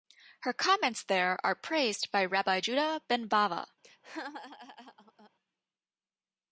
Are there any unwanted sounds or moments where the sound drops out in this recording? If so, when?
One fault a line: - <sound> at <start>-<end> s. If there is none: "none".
- laugh at 3.8-5.3 s